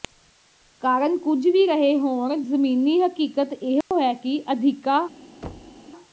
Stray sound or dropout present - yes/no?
yes